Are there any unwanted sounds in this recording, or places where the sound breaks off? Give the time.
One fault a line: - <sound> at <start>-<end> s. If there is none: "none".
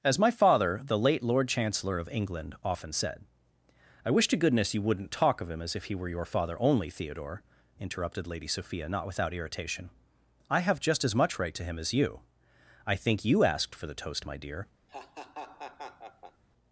- laugh at 14.9-16.4 s